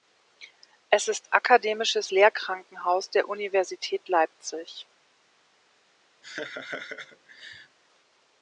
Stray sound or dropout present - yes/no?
yes